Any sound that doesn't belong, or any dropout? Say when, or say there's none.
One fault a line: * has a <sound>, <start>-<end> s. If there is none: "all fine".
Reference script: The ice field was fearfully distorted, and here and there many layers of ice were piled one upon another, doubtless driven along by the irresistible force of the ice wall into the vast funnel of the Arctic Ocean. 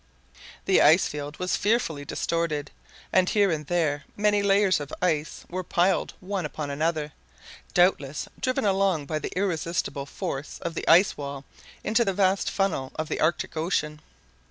all fine